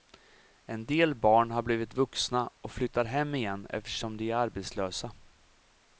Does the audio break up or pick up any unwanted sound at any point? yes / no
no